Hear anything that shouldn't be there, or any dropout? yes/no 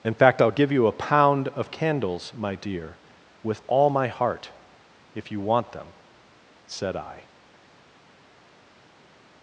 no